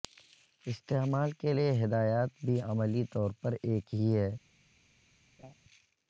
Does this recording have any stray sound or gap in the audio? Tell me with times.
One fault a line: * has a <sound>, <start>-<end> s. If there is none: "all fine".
* has a laugh, 5.4-5.5 s